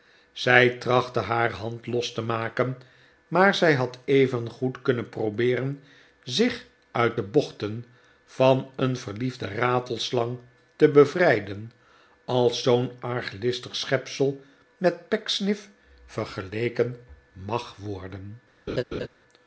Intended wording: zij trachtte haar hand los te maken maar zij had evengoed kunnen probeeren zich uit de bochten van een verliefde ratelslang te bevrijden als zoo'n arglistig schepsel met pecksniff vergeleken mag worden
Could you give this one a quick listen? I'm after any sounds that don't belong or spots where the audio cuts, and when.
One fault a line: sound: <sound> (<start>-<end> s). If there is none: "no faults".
sound: laugh (18.7-19.1 s)